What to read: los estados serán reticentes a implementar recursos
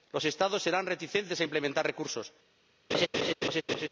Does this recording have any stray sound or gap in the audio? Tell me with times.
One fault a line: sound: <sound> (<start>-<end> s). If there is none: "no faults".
sound: laugh (2.9-3.9 s)